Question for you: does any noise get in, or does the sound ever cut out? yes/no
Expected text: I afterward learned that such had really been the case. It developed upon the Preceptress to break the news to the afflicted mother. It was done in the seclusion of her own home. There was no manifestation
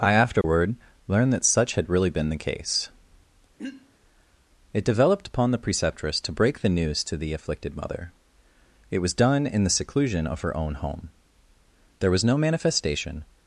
yes